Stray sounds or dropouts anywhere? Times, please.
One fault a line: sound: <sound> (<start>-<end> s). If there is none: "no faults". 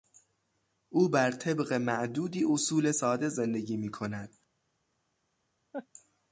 sound: laugh (5.7-5.9 s)